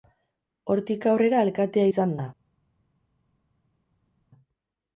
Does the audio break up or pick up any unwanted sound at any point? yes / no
no